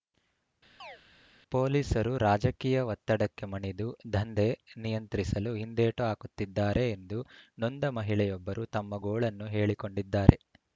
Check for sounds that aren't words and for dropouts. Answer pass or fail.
fail